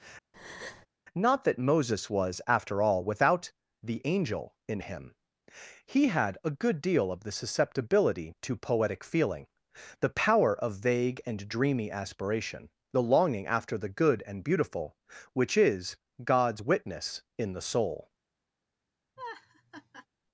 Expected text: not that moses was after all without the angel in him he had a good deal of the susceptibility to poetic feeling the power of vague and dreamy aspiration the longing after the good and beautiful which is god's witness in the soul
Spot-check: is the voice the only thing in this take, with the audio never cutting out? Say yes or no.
no